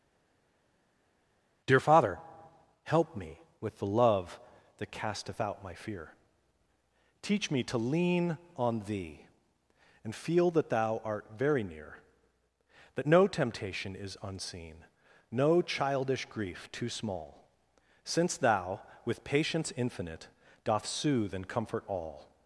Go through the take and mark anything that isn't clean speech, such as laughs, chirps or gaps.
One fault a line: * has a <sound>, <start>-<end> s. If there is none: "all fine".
all fine